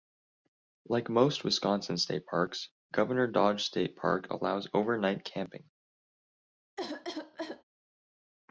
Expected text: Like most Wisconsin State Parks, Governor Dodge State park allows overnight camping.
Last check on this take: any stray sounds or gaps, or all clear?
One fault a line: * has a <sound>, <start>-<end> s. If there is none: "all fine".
* has a cough, 6.8-7.6 s